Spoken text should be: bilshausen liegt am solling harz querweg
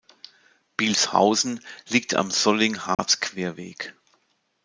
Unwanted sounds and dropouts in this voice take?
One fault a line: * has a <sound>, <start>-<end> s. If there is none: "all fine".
* has a dropout, 2.9-3.0 s